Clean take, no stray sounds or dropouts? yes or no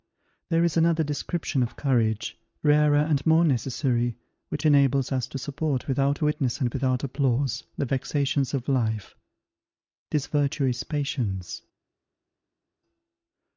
yes